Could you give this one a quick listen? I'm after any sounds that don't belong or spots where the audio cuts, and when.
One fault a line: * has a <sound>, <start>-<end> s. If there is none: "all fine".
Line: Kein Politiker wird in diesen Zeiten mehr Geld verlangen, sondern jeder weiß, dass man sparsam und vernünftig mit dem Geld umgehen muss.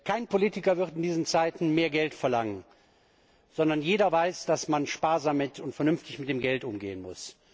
all fine